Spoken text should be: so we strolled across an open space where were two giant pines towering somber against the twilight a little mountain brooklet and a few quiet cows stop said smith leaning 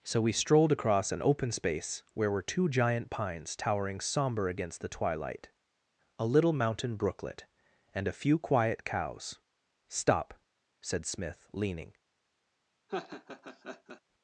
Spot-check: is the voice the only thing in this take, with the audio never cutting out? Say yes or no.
no